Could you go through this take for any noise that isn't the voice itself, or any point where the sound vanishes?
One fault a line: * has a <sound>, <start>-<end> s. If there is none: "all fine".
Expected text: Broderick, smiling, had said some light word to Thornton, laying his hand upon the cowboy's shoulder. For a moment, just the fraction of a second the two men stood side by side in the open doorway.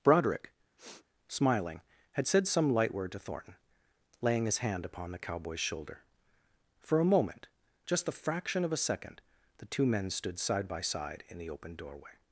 * has a sniff, 0.8-1.0 s